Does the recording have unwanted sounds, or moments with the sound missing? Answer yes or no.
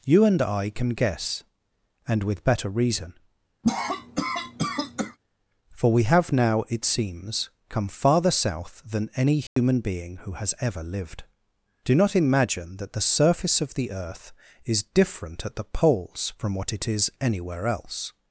yes